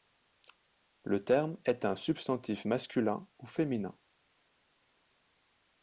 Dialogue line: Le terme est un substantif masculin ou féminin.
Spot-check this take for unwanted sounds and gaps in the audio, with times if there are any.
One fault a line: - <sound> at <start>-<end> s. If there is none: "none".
none